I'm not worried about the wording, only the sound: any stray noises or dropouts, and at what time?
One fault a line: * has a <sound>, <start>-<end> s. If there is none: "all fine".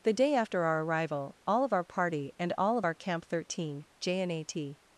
all fine